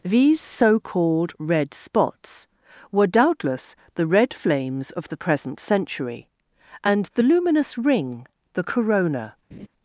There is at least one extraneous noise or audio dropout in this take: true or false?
true